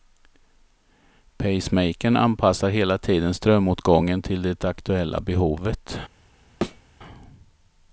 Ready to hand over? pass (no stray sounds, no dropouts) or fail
fail